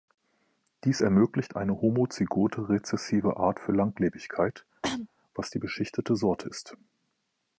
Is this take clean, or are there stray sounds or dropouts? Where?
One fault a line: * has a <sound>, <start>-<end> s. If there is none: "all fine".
* has a cough, 4.8-5.1 s